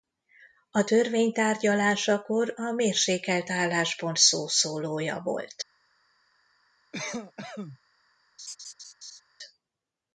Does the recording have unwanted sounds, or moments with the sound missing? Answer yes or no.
yes